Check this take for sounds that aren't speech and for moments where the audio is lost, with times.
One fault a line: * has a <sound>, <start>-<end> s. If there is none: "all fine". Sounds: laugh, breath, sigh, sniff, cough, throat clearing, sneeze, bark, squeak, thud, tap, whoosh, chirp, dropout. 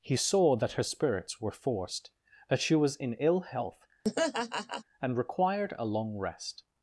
* has a laugh, 4.0-4.8 s